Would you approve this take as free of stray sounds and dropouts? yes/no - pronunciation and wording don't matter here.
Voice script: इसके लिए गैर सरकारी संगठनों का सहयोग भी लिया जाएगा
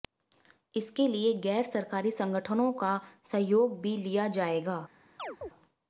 no